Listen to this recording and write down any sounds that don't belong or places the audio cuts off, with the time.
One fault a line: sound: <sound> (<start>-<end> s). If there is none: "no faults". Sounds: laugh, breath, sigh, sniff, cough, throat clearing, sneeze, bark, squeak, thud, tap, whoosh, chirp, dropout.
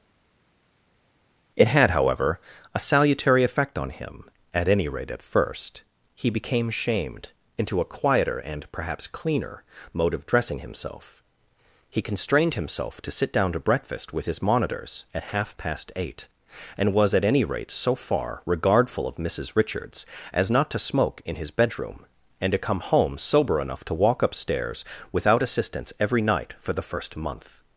no faults